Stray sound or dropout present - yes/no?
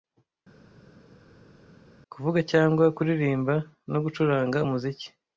no